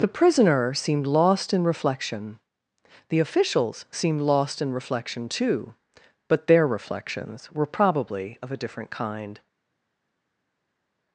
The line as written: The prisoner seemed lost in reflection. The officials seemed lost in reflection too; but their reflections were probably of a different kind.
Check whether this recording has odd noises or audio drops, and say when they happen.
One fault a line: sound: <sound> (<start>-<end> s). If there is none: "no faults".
no faults